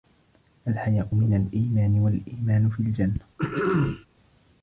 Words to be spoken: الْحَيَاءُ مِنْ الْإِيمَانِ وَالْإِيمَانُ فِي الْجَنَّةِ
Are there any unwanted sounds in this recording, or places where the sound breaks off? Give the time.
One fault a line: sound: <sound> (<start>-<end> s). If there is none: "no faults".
sound: throat clearing (3.4-4.1 s)